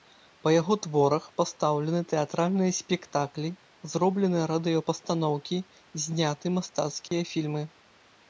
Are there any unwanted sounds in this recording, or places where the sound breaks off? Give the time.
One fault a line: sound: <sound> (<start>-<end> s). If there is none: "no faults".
sound: dropout (7.1-7.1 s)